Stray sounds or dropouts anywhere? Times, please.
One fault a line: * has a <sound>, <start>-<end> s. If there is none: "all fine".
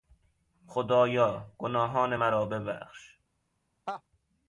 * has a laugh, 3.9-4.0 s